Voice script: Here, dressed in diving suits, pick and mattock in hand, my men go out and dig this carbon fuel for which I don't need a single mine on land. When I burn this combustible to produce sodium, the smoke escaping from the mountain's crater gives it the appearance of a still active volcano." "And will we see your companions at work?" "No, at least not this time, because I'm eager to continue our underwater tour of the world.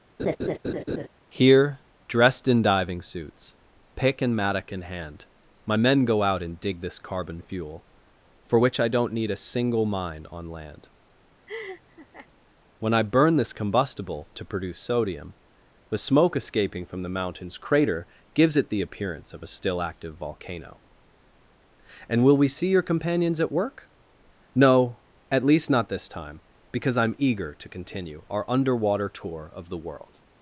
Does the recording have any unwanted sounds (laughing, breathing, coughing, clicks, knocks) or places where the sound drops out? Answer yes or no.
yes